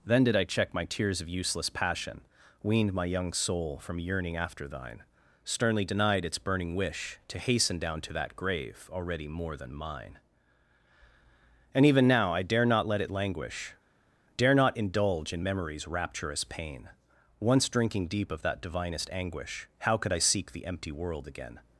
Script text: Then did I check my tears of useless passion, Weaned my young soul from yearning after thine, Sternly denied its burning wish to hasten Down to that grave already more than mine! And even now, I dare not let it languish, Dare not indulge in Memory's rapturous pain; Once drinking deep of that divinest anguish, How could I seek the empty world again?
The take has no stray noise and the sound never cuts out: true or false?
true